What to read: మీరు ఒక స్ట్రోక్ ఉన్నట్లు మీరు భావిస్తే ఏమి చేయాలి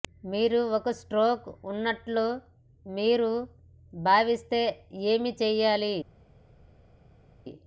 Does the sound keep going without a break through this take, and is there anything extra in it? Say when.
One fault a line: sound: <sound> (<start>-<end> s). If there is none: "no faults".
no faults